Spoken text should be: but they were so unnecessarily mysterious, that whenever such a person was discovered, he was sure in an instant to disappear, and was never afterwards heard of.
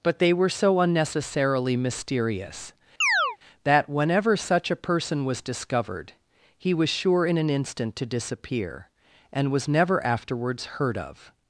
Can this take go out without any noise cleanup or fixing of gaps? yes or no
no